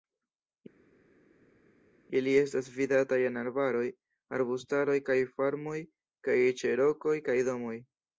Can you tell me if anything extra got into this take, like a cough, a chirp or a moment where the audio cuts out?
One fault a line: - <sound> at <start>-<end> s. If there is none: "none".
none